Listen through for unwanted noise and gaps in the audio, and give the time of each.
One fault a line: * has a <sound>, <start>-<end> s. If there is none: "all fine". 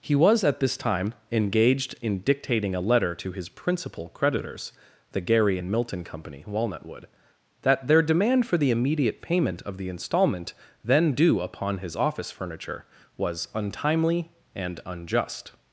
all fine